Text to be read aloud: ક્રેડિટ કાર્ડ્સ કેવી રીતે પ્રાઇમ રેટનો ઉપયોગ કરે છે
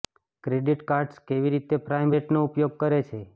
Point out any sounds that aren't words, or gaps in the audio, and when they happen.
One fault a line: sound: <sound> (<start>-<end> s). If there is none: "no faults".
no faults